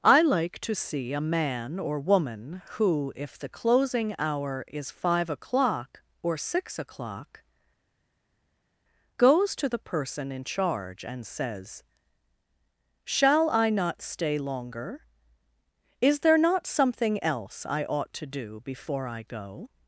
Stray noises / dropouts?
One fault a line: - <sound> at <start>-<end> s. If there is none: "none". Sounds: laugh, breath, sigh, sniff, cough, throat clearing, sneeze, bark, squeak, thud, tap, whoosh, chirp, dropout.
none